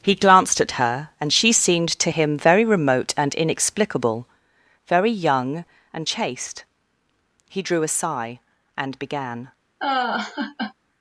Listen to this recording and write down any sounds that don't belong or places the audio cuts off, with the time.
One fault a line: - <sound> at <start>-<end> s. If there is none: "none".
- laugh at 9.8-10.7 s